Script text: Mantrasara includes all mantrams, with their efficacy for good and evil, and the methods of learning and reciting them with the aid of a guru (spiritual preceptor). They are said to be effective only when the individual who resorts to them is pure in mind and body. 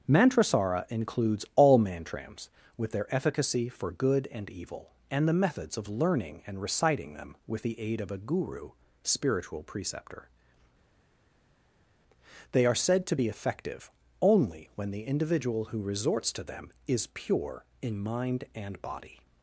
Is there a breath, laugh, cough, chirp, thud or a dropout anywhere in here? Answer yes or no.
no